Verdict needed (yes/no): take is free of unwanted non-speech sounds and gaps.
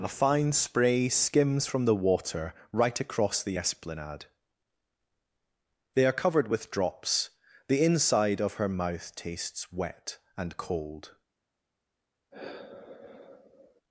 no